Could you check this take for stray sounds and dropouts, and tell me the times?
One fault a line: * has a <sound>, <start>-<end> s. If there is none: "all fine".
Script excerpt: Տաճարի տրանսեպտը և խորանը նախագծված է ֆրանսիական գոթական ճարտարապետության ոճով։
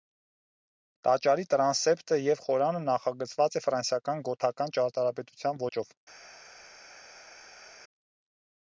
all fine